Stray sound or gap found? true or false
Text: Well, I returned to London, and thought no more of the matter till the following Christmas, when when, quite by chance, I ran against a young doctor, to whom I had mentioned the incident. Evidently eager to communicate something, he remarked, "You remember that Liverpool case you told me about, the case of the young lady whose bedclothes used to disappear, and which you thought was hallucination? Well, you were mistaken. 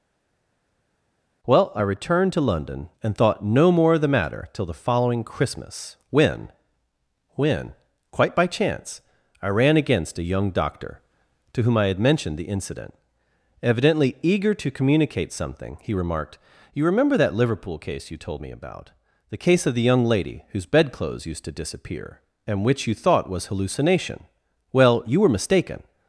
false